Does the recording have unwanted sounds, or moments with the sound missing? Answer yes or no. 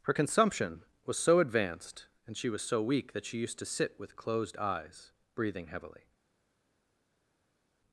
no